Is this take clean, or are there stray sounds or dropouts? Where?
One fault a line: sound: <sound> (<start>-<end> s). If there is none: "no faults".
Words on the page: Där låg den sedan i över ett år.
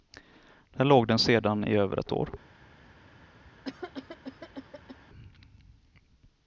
sound: cough (3.6-5.0 s)